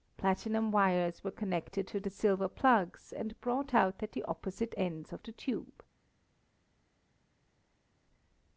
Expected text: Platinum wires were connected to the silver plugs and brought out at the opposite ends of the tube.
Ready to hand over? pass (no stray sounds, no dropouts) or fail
pass